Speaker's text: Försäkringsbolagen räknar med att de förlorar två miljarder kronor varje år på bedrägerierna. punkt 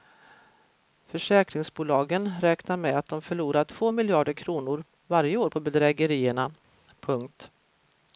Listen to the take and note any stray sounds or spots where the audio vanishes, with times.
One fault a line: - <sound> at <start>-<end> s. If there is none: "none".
none